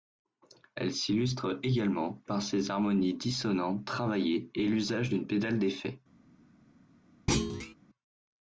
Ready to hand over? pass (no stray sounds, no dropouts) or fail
fail